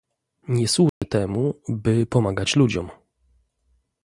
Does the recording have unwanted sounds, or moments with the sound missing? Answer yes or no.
yes